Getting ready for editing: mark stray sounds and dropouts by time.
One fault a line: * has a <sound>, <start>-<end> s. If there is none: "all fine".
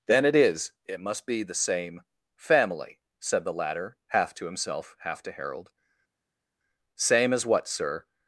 all fine